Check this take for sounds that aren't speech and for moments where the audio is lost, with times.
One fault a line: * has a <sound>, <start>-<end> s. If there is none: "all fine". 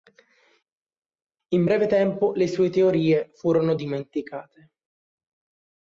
all fine